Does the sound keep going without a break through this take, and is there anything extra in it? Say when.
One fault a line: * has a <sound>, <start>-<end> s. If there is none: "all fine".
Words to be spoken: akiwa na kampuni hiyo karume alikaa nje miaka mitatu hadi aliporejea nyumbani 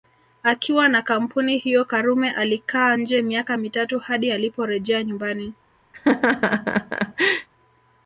* has a laugh, 5.9-7.5 s